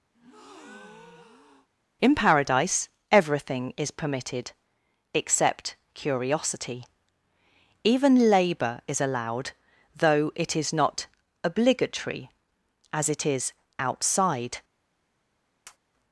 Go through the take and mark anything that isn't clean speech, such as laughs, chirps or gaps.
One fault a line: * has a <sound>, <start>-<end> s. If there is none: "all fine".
* has a breath, 0.1-1.7 s
* has a tap, 15.6-15.8 s